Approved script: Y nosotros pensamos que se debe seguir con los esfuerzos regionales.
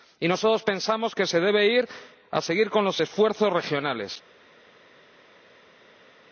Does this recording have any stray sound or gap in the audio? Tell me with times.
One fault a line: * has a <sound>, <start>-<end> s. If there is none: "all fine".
all fine